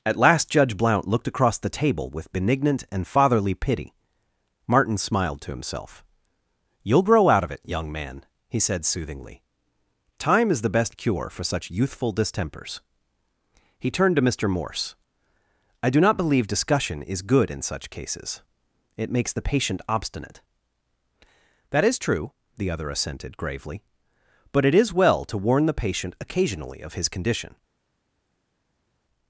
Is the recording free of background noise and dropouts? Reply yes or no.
yes